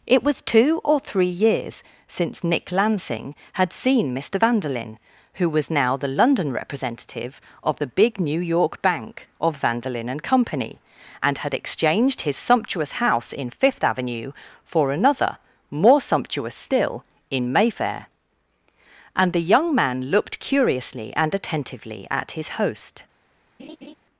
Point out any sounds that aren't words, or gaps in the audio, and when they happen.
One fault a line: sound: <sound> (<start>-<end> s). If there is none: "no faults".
sound: laugh (23.6-23.9 s)